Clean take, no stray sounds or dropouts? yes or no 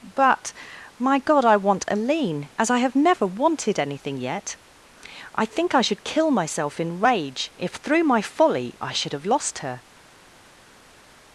yes